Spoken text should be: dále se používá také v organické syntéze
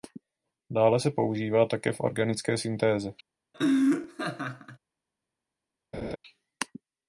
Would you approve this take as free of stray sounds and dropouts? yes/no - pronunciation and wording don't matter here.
no